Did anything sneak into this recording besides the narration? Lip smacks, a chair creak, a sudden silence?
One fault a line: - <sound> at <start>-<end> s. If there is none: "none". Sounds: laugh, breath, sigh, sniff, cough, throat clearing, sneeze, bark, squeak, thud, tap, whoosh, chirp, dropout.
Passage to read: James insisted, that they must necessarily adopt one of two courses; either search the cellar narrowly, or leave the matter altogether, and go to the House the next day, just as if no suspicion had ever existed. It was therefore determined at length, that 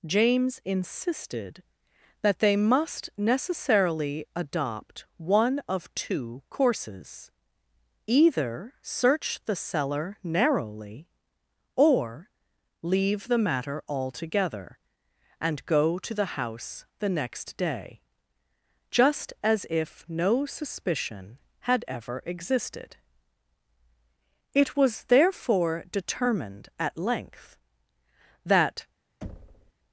- thud at 29.2-29.7 s